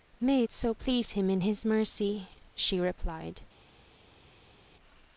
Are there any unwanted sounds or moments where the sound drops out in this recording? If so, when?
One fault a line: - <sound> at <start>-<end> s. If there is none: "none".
none